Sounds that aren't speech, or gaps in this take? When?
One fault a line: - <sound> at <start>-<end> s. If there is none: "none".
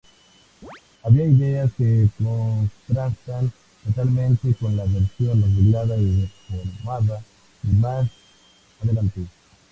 - chirp at 0.6-0.8 s